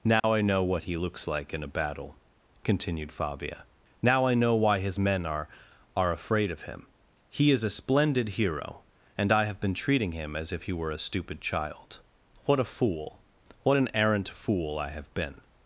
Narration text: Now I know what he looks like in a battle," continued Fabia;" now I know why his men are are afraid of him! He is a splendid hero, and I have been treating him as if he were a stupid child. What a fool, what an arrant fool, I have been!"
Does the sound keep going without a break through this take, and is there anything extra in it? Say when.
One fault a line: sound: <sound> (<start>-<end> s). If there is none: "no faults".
sound: dropout (0.2-0.2 s)